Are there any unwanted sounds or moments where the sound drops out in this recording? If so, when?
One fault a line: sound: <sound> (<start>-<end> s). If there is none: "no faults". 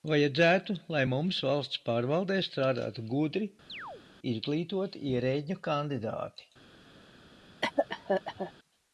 sound: chirp (3.7-4.0 s)
sound: cough (7.6-8.5 s)